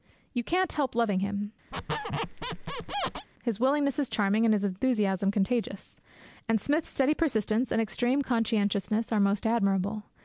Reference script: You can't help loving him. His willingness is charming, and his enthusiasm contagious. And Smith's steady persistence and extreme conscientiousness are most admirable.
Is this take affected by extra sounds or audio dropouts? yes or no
yes